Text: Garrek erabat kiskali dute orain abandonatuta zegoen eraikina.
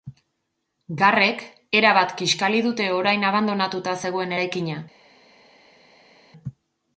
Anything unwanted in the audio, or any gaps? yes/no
no